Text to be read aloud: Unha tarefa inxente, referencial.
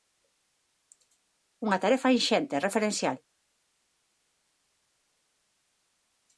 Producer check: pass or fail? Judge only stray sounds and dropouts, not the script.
pass